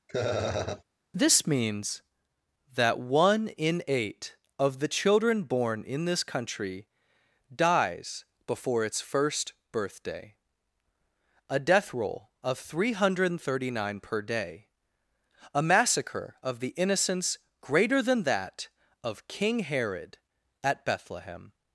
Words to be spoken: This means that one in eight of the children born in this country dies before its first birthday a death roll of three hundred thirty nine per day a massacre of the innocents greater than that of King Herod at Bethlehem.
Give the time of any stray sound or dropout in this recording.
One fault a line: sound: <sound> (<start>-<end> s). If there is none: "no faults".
sound: laugh (0.1-0.8 s)